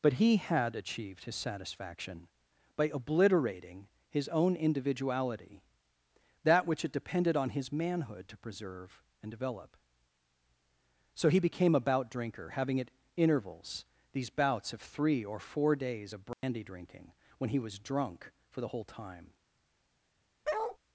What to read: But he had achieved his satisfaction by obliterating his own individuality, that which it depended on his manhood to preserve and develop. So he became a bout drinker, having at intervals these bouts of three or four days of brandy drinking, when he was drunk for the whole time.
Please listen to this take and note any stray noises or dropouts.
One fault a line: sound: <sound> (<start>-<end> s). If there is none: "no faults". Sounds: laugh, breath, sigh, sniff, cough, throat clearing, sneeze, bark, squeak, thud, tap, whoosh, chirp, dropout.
sound: dropout (16.3-16.4 s)
sound: bark (20.4-20.8 s)